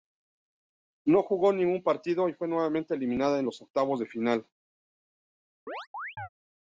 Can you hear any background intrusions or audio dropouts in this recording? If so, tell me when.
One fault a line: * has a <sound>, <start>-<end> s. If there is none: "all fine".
* has a chirp, 5.7-6.3 s